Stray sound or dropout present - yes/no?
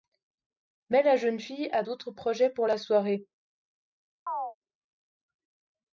yes